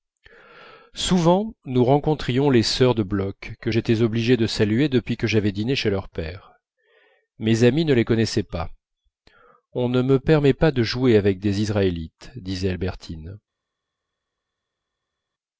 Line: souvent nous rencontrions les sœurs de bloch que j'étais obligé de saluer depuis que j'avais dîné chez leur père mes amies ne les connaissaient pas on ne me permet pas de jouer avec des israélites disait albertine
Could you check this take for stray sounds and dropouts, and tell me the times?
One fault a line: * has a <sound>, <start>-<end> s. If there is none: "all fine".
all fine